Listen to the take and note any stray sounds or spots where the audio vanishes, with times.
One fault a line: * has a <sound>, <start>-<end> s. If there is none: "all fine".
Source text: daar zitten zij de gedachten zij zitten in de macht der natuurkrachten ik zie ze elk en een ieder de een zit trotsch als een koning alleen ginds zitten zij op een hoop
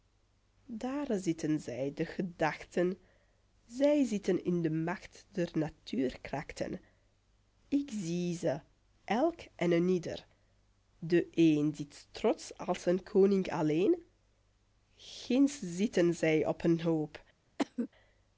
* has a cough, 17.6-17.9 s